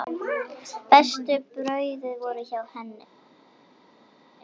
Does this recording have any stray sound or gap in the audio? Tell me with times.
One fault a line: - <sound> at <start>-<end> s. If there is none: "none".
none